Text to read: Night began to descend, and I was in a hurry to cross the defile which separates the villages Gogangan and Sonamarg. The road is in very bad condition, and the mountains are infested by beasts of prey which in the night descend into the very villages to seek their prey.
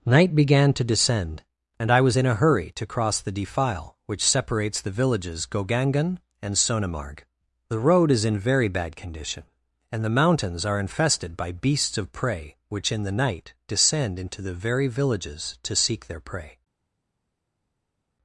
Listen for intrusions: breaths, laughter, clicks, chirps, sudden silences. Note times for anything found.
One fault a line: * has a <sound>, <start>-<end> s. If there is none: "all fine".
all fine